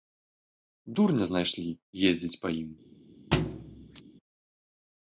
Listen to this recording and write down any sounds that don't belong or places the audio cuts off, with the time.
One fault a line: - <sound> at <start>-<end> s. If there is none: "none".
- thud at 3.3-4.0 s